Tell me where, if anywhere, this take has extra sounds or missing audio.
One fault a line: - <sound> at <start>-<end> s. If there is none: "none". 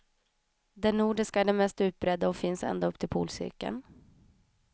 none